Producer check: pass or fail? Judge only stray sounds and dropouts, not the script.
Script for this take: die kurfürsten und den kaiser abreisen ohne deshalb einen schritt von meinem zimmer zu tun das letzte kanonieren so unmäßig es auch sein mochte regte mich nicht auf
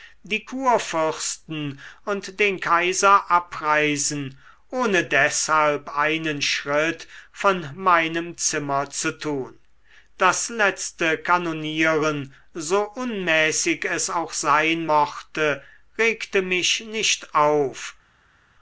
pass